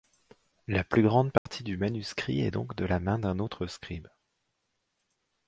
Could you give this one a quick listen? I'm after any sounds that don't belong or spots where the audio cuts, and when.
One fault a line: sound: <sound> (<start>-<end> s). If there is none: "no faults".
sound: dropout (1.4-1.5 s)